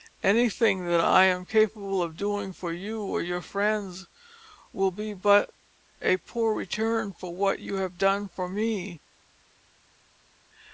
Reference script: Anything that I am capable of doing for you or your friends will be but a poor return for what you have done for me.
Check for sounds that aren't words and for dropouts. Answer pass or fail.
pass